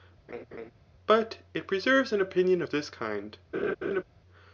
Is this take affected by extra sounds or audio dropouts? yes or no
yes